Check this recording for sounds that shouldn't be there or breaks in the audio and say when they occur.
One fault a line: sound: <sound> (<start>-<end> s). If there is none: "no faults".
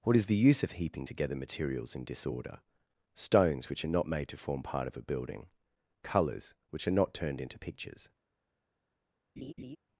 sound: laugh (9.4-9.8 s)